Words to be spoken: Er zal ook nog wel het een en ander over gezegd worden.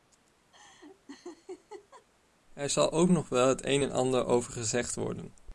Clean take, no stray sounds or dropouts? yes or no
no